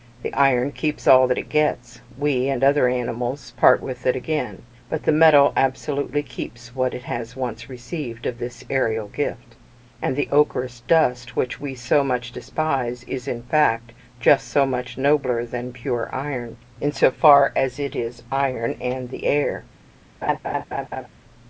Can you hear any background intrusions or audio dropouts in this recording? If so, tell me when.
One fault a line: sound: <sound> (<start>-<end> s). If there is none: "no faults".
sound: laugh (20.2-21.1 s)